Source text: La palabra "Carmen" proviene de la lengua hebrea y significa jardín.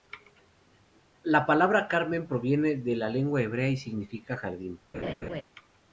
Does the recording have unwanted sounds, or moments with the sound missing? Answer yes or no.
yes